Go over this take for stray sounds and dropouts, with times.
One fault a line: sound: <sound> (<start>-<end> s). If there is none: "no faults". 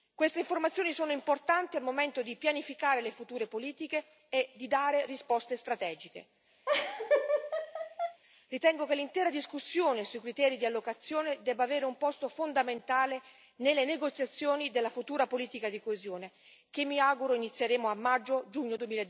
sound: laugh (6.7-8.2 s)